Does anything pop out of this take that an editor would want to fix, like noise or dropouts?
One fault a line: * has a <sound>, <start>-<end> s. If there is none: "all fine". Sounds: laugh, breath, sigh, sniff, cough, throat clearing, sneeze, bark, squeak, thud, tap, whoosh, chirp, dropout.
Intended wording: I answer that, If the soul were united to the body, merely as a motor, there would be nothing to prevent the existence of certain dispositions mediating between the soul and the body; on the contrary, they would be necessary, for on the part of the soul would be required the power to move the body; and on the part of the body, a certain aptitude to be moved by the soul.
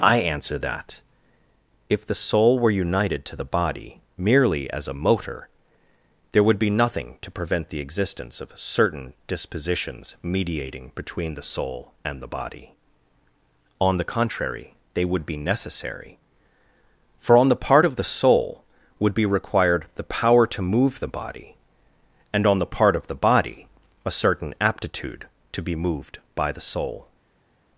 all fine